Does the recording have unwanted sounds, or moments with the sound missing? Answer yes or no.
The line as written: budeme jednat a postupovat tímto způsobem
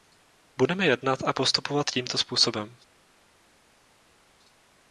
no